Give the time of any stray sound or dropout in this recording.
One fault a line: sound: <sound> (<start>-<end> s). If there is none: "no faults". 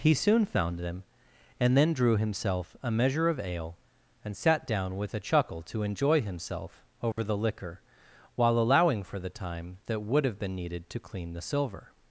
sound: dropout (7.1-7.2 s)